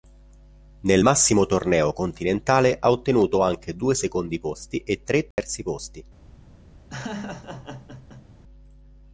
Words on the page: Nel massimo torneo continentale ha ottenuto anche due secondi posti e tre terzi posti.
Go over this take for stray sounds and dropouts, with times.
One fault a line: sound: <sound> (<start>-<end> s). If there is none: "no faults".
sound: dropout (5.3-5.4 s)
sound: laugh (6.9-8.3 s)